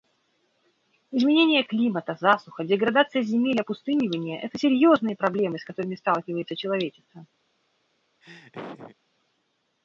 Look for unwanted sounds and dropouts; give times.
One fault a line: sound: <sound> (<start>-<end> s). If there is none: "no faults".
sound: laugh (8.2-9.0 s)